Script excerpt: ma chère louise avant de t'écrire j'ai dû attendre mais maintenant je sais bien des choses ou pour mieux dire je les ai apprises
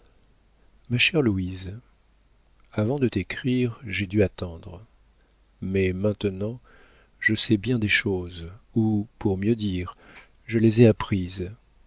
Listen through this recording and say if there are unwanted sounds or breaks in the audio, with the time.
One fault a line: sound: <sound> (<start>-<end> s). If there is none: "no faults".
no faults